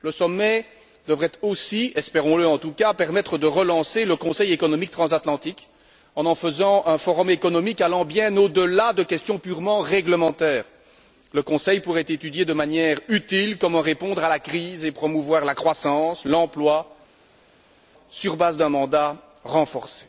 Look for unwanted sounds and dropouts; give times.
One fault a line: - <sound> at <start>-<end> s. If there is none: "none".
none